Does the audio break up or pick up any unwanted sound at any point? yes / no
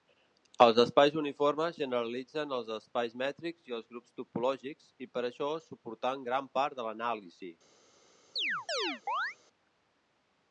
yes